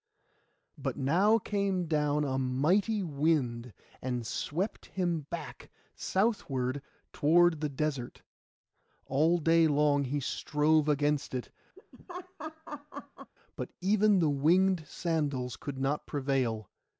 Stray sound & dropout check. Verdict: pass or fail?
fail